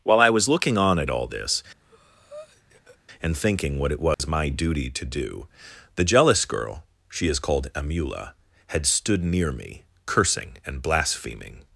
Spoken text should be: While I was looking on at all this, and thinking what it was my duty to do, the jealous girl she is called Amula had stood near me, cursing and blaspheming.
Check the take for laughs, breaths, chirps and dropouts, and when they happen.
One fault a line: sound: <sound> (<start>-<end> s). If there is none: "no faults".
sound: breath (1.8-3.0 s)
sound: dropout (4.1-4.2 s)